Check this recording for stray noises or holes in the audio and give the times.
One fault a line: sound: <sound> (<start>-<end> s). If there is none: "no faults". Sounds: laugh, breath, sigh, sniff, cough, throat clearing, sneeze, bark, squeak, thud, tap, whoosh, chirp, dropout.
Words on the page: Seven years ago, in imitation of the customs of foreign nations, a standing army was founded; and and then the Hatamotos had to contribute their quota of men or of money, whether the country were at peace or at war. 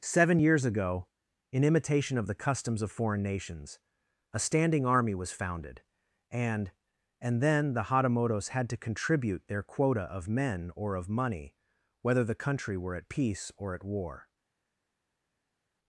no faults